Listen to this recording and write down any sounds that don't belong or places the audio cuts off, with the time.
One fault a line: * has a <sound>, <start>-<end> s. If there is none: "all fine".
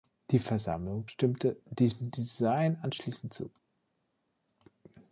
all fine